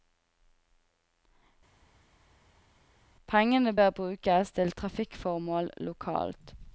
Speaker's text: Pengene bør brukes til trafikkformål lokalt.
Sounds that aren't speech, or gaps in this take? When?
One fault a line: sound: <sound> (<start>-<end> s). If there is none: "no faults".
no faults